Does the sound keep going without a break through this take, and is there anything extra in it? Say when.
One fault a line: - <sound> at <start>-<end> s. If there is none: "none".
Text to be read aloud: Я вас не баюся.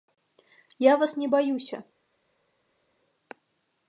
none